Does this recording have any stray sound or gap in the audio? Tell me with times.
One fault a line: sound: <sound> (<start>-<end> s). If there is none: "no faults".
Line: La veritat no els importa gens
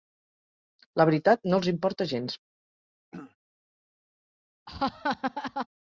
sound: throat clearing (3.1-3.4 s)
sound: laugh (4.7-5.7 s)